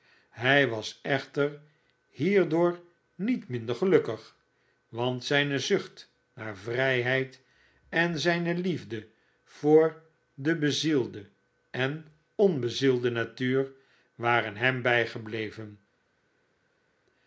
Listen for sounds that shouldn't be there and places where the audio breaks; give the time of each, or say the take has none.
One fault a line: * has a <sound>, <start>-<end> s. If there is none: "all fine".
all fine